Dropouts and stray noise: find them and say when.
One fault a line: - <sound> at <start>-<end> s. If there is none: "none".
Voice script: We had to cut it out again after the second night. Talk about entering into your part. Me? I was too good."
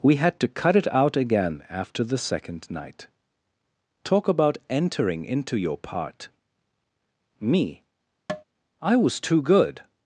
- tap at 8.3-8.4 s